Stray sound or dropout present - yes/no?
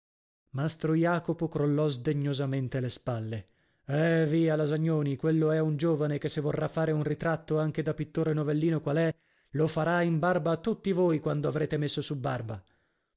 no